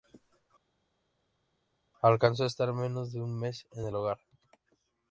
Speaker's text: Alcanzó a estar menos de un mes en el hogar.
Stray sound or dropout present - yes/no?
no